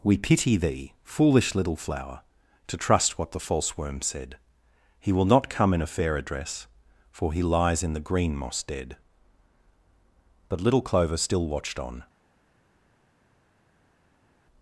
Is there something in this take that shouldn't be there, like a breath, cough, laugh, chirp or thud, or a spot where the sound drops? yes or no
no